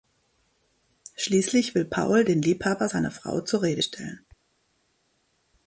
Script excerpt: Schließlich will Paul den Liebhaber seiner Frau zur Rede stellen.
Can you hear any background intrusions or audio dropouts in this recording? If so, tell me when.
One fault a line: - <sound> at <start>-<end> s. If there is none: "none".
none